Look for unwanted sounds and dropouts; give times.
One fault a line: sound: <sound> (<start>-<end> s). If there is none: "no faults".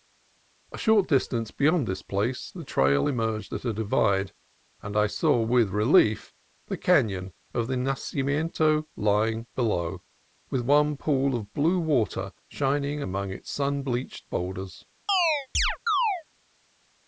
sound: chirp (15.1-16.2 s)